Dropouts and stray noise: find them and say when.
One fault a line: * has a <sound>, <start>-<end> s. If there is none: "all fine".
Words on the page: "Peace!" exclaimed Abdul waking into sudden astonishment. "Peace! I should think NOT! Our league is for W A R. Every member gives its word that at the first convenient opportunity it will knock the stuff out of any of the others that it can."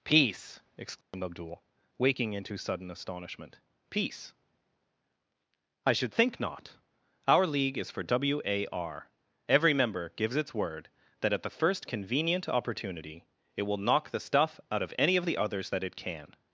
* has a dropout, 1.0-1.1 s